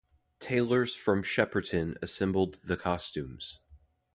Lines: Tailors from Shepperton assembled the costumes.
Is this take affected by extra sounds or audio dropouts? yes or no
no